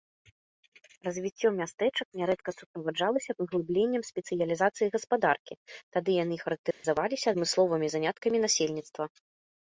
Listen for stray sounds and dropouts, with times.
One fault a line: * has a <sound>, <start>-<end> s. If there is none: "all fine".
* has a dropout, 6.7-6.8 s